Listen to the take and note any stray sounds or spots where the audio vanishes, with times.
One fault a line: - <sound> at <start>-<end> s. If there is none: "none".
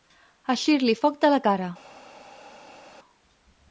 none